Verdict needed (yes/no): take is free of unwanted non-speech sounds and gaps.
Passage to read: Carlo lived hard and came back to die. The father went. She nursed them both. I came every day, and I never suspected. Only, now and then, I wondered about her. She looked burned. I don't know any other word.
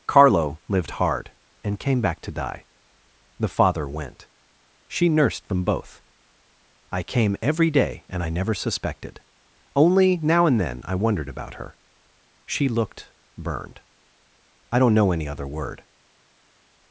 yes